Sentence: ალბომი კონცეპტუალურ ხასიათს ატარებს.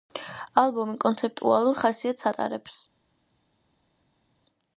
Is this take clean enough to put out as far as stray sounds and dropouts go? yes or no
yes